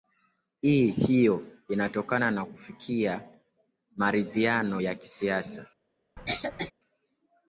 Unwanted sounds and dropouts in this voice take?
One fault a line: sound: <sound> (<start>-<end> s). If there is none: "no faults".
sound: cough (6.2-6.7 s)